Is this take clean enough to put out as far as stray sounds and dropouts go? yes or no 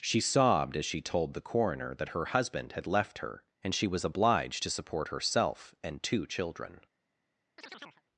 no